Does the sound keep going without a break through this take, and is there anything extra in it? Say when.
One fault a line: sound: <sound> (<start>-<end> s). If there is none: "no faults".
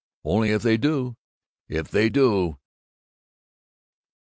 no faults